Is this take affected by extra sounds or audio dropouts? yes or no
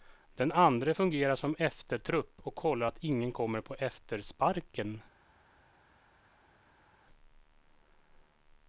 no